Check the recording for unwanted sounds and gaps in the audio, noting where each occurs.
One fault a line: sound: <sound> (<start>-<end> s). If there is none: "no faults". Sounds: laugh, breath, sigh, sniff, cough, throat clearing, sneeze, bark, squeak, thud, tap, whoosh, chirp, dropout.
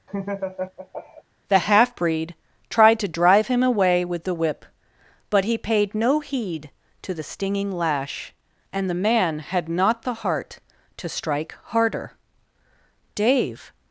sound: laugh (0.1-1.2 s)